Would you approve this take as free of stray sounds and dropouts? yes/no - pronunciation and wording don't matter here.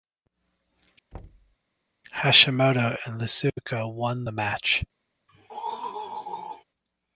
no